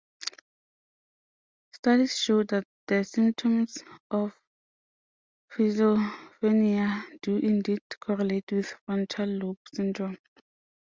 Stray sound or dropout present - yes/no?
no